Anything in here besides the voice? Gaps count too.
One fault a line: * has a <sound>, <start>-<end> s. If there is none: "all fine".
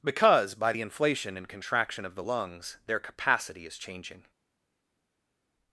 all fine